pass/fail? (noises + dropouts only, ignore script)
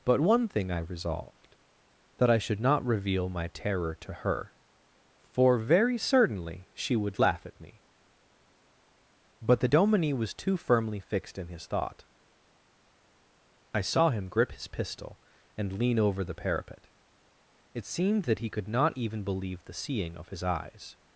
pass